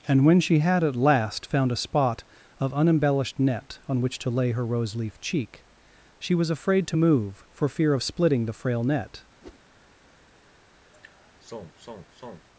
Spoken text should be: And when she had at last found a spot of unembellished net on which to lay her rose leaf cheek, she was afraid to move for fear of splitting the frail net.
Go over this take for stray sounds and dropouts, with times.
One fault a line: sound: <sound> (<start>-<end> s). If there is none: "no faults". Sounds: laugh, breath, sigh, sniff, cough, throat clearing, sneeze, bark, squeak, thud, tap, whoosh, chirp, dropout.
sound: whoosh (9.4-9.6 s)
sound: sigh (10.9-12.5 s)